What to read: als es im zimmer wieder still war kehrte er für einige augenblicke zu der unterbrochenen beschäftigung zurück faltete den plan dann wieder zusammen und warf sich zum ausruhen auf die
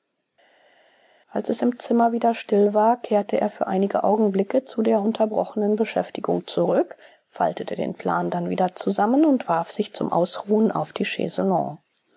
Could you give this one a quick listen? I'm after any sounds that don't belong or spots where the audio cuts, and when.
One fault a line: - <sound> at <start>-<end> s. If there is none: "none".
none